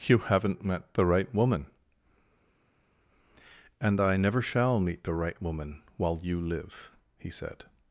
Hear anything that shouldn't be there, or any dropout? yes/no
no